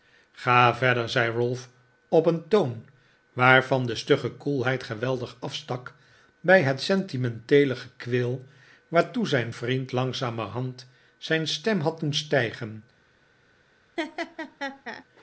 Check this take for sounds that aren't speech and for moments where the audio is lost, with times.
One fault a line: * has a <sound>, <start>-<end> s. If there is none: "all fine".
* has a laugh, 14.0-15.0 s